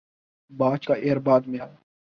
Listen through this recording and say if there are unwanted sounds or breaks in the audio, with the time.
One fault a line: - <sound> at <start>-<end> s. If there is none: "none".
none